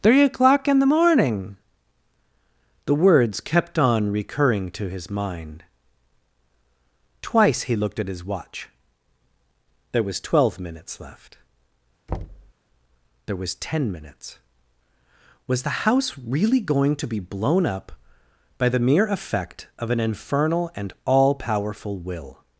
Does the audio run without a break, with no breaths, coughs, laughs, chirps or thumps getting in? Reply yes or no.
no